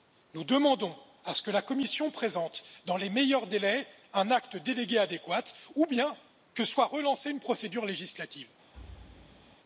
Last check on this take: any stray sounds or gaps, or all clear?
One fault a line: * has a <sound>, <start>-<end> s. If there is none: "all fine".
* has a thud, 8.7-9.6 s